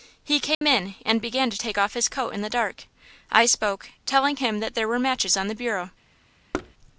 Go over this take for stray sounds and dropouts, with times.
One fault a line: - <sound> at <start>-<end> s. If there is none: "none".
- dropout at 0.5-0.6 s
- thud at 6.5-6.7 s